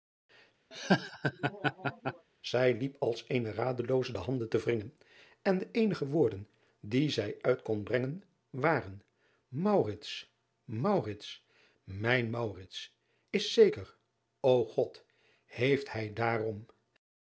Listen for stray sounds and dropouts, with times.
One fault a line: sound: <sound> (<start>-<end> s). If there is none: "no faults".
sound: laugh (0.7-2.3 s)